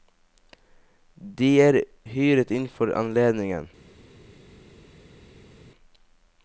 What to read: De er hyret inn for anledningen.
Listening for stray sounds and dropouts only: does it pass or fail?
pass